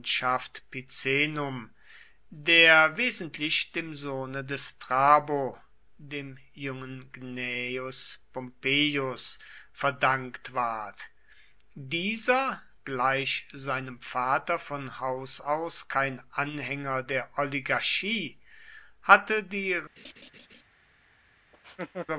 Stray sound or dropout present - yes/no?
yes